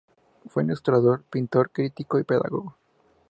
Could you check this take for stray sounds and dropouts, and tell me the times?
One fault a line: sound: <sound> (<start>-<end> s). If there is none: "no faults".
no faults